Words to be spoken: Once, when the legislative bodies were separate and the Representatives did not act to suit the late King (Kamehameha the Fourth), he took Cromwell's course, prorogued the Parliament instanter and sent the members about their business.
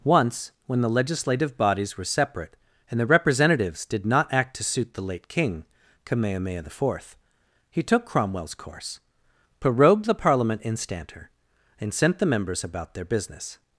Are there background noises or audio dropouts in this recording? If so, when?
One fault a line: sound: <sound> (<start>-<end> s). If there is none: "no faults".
no faults